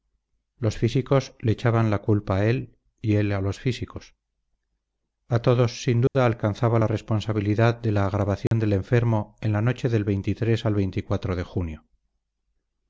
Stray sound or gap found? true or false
true